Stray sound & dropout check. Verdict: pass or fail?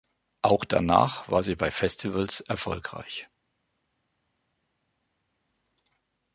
pass